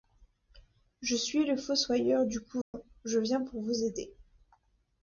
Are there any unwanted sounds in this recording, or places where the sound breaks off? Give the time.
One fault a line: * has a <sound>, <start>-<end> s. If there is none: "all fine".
* has a dropout, 2.6-2.7 s